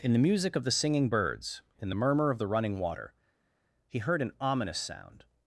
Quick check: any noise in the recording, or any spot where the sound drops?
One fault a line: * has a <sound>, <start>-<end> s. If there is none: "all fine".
all fine